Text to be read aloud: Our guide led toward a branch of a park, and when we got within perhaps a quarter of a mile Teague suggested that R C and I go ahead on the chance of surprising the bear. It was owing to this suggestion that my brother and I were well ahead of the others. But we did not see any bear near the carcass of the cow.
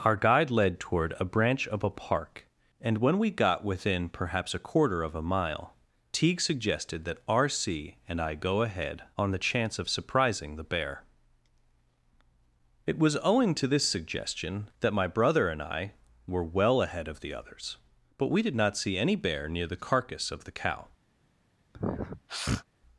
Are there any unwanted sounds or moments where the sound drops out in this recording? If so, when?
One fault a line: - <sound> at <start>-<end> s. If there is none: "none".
- sniff at 21.7-22.6 s